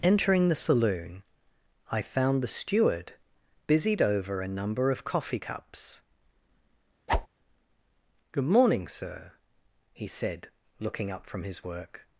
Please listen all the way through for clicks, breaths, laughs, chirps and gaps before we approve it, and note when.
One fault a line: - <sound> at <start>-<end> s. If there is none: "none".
- whoosh at 7.1-7.3 s